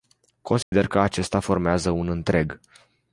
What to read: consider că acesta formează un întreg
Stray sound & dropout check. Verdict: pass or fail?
fail